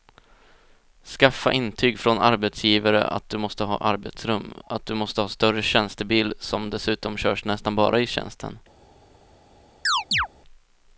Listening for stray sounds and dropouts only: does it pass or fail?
fail